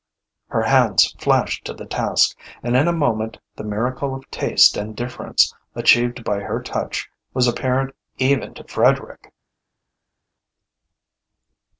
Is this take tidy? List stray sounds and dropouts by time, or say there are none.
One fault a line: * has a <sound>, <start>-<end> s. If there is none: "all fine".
all fine